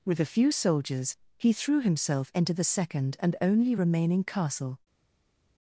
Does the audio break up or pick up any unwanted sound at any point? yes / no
no